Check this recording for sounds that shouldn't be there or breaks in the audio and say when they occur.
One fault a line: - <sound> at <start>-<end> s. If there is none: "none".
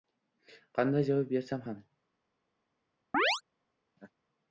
- chirp at 3.1-3.4 s
- laugh at 4.0-4.1 s